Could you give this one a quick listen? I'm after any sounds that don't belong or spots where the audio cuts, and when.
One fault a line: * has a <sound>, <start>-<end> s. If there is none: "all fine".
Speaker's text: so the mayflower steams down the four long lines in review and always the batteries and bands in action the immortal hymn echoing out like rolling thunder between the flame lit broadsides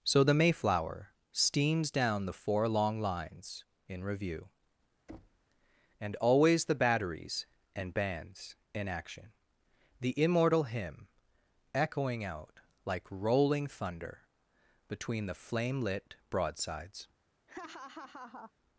* has a thud, 5.1-5.5 s
* has a laugh, 17.5-18.5 s